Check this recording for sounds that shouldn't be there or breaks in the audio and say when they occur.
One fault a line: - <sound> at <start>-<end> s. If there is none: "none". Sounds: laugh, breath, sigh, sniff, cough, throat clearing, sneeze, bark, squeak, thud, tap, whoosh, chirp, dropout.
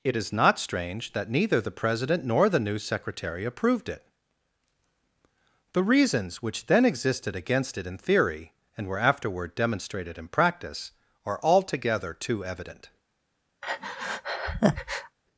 - breath at 13.6-15.2 s